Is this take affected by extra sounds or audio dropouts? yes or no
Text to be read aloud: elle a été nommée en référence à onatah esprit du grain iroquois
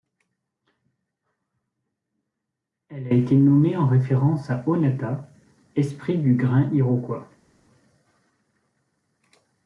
no